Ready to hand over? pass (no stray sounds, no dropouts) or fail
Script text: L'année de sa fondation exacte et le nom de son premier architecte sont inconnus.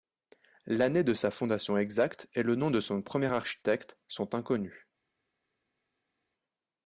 pass